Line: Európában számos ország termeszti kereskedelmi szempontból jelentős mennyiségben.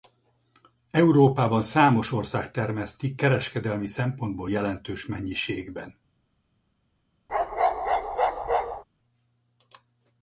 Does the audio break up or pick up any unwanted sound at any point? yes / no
yes